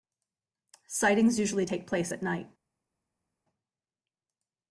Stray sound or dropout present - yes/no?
no